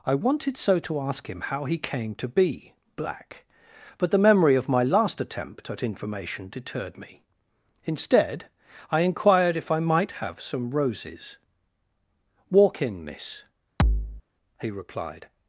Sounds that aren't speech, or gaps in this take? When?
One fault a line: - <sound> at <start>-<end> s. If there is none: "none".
- thud at 13.8-14.2 s